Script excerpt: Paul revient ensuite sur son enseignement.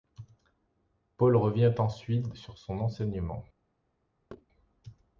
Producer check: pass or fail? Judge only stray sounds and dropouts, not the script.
fail